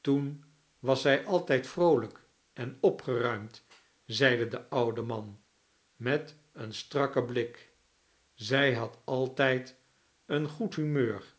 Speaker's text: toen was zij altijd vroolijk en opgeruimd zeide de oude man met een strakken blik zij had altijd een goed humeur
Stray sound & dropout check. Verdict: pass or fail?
pass